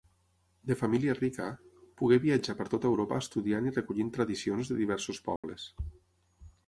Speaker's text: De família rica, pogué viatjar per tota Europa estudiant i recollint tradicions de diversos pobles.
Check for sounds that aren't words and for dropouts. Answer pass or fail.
fail